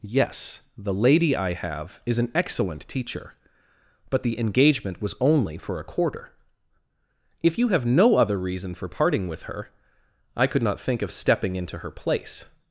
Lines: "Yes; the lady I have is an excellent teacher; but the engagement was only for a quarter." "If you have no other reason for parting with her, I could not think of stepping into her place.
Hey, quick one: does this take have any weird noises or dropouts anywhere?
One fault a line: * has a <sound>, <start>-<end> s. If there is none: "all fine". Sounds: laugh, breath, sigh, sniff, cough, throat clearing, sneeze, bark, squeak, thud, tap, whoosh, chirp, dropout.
all fine